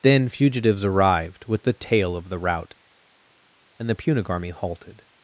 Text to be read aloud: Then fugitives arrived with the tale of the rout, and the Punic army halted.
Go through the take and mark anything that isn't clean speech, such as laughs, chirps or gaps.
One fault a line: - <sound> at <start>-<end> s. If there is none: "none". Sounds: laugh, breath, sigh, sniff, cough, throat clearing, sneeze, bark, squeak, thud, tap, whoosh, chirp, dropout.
none